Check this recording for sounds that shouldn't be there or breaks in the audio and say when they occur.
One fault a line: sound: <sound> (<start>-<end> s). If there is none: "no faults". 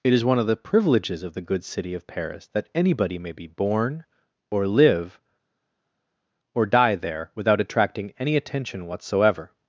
no faults